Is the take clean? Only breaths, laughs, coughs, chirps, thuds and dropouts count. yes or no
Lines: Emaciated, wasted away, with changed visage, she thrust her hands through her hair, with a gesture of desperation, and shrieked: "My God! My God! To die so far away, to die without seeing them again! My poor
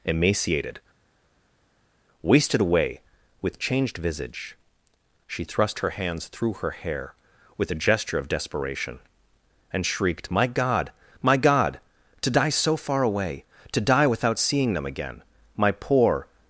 yes